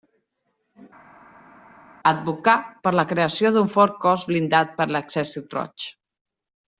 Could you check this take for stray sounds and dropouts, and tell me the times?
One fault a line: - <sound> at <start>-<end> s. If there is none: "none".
none